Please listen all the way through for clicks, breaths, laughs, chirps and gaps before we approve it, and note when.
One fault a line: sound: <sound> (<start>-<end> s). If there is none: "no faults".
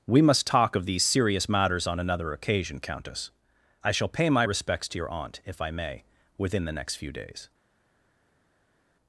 no faults